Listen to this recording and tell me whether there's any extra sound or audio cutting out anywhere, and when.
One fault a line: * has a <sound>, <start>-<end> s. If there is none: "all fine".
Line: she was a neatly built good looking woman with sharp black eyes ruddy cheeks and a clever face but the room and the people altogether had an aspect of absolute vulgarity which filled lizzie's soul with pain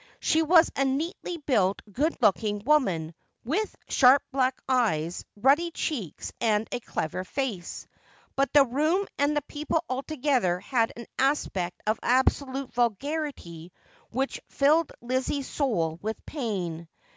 all fine